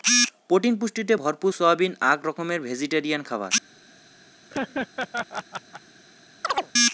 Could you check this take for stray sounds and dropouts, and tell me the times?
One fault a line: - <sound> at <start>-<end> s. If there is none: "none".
- laugh at 4.5-5.8 s
- chirp at 6.4-6.7 s